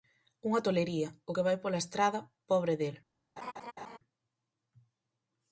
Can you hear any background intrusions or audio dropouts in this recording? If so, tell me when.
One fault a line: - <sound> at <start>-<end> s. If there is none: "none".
- laugh at 3.4-4.0 s